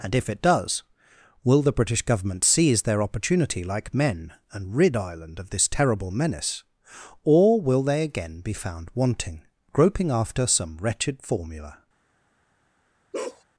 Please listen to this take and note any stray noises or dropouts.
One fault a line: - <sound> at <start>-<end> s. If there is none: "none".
- bark at 13.1-13.4 s